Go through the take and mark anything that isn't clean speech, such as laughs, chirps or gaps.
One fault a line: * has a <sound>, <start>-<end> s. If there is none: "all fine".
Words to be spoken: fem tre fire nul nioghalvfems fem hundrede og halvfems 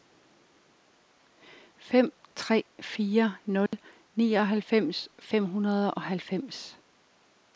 * has a dropout, 3.7-3.7 s